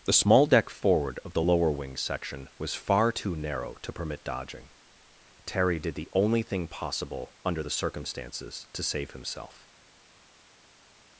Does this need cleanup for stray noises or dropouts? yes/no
no